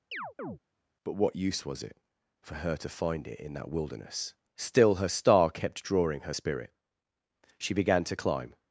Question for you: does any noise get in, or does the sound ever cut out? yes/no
yes